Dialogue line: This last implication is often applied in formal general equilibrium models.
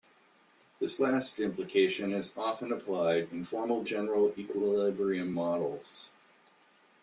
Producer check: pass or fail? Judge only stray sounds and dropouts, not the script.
pass